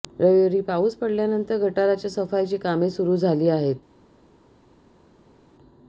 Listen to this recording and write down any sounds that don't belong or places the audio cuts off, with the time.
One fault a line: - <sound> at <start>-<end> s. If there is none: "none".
none